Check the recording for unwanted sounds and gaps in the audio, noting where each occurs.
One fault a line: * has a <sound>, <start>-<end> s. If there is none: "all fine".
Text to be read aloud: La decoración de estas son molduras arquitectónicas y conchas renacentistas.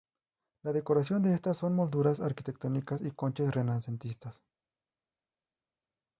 all fine